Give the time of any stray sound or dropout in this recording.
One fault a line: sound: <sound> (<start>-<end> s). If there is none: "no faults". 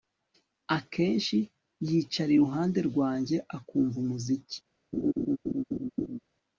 sound: laugh (4.9-6.2 s)